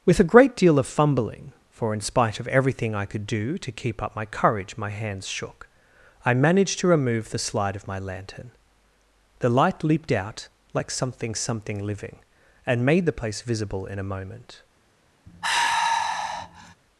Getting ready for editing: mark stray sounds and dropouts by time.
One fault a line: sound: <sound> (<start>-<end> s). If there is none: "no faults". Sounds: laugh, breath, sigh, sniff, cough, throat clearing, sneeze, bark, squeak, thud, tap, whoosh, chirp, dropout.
sound: sigh (15.3-16.8 s)